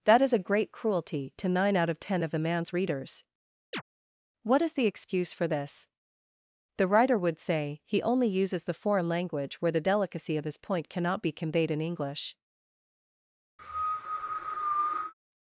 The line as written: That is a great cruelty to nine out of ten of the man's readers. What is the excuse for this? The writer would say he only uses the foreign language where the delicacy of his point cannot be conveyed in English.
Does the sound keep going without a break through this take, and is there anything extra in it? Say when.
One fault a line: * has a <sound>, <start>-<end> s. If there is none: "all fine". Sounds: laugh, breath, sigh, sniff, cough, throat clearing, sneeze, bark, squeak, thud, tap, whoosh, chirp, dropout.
* has a chirp, 3.7-3.8 s
* has a cough, 13.6-15.1 s